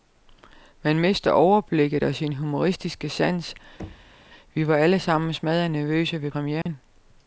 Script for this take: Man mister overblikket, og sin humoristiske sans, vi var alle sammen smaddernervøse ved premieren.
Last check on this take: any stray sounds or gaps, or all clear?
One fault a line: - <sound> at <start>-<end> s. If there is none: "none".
- thud at 3.8-4.2 s
- dropout at 6.6-6.7 s